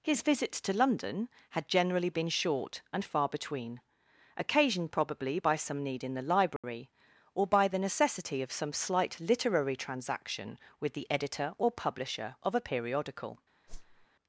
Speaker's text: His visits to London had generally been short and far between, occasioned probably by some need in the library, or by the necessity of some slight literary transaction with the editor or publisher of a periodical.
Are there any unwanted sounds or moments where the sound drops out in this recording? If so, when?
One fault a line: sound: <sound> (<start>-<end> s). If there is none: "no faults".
sound: dropout (6.6-6.6 s)
sound: whoosh (13.7-14.1 s)